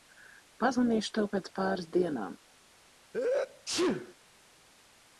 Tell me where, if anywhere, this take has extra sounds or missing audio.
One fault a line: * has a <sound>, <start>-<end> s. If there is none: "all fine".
* has a sneeze, 3.1-4.2 s